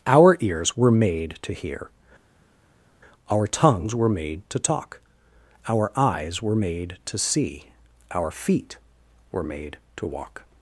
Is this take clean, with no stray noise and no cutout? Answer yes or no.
yes